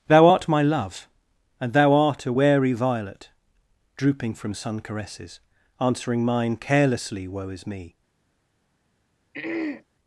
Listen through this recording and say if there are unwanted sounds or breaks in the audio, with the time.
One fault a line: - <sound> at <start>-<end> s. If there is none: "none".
- throat clearing at 9.3-9.8 s